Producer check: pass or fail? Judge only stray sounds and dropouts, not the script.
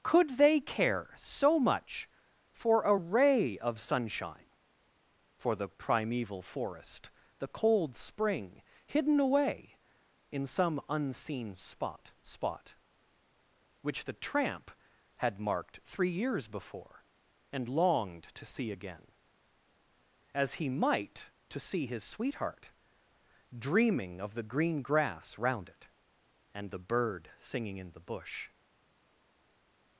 pass